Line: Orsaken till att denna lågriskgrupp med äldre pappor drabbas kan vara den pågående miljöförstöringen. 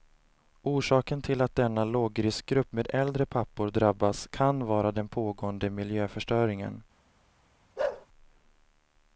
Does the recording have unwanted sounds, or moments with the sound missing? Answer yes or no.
yes